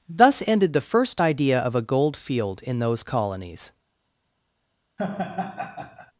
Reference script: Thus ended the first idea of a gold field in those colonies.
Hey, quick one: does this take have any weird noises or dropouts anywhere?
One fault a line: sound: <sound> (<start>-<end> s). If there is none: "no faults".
sound: laugh (5.0-6.1 s)